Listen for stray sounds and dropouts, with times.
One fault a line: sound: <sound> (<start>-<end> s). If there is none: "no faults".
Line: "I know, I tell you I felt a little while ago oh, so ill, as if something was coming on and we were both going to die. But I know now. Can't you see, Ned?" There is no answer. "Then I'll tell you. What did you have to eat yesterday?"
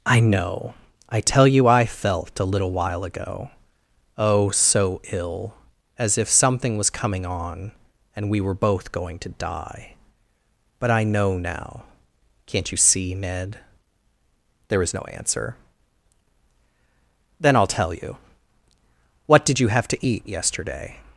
no faults